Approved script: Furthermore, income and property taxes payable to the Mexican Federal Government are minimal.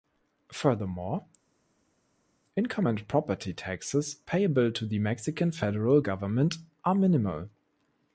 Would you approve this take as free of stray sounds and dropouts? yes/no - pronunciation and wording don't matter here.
yes